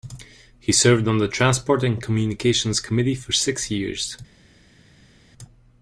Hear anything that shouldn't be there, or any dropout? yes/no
no